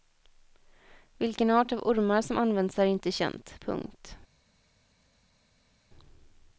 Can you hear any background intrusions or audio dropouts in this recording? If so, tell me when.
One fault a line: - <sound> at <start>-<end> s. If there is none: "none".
none